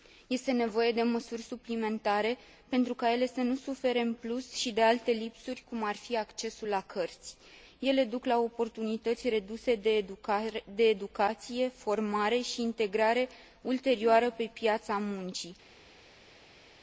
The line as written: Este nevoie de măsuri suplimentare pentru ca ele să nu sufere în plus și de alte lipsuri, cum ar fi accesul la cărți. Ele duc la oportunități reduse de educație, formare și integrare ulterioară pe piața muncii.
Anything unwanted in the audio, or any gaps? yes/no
no